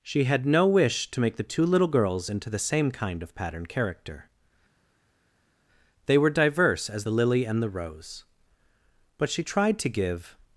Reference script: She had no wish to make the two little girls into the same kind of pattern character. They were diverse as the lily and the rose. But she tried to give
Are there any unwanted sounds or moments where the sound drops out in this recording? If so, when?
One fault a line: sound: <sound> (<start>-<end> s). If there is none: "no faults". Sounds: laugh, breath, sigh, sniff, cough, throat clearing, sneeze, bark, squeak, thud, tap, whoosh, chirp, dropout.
no faults